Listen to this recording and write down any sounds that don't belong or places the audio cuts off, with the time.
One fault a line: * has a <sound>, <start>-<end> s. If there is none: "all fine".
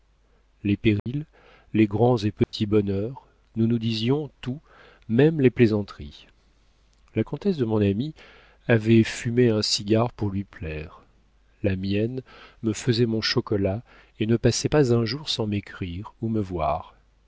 * has a dropout, 1.0-1.1 s
* has a dropout, 2.4-2.5 s